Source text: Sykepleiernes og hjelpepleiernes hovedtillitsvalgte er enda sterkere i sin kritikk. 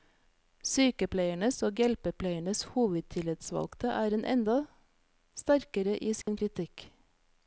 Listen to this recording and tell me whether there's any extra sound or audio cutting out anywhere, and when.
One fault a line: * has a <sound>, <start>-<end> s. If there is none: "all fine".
* has a dropout, 6.2-6.3 s